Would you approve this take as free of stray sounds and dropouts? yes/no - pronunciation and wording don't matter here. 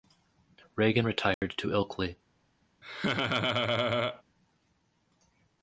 no